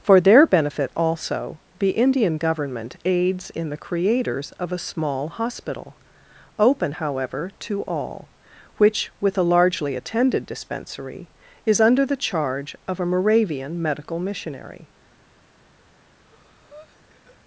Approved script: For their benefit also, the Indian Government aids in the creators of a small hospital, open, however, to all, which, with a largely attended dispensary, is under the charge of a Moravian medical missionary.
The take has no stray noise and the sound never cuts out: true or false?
false